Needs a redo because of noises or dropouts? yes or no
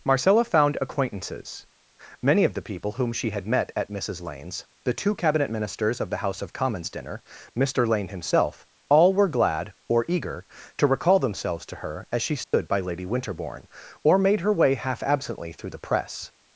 yes